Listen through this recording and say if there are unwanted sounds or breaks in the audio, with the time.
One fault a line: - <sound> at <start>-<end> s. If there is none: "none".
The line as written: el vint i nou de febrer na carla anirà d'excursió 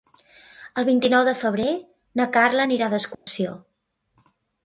- dropout at 3.1-3.3 s